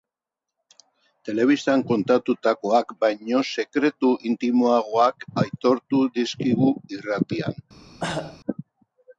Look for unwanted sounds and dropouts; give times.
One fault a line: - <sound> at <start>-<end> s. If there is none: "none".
- cough at 8.0-8.4 s